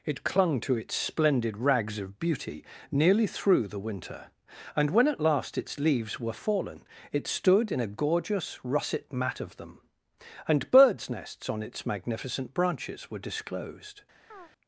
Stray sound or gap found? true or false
true